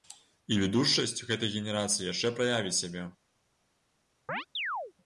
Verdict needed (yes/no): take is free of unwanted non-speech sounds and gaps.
no